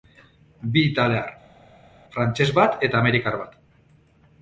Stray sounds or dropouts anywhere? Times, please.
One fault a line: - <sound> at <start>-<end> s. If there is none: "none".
none